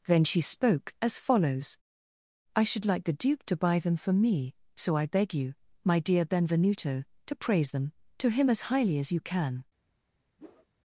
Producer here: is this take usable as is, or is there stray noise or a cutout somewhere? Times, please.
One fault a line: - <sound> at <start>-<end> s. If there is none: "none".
- whoosh at 10.4-10.7 s